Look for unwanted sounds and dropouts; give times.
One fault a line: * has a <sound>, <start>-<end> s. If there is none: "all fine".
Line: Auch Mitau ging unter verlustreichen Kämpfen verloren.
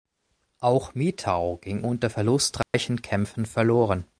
* has a dropout, 2.6-2.7 s